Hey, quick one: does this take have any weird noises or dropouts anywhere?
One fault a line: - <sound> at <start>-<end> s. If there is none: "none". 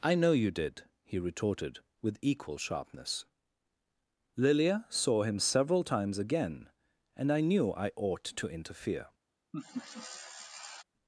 - laugh at 9.5-10.8 s